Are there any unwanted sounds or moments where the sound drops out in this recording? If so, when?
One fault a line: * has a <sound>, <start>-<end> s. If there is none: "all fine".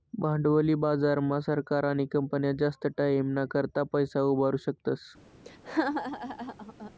* has a laugh, 5.4-6.9 s